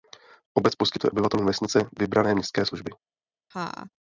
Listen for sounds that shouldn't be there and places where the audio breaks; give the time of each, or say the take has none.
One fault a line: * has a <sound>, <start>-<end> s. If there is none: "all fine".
* has a laugh, 3.5-3.9 s